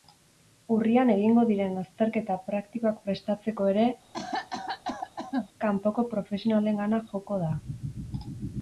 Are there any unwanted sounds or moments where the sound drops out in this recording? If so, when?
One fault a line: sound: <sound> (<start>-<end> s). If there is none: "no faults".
sound: cough (4.1-5.5 s)